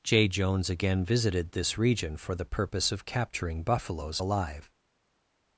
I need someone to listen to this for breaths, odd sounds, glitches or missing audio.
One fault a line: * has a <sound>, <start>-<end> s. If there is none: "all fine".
all fine